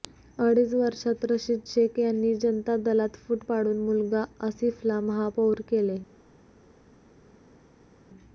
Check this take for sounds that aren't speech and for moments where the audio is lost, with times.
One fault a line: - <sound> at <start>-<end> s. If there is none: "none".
none